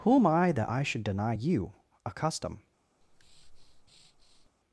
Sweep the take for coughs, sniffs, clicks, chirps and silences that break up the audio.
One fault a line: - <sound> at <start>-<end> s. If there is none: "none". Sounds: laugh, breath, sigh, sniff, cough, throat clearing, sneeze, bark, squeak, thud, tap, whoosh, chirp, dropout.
- breath at 3.0-4.5 s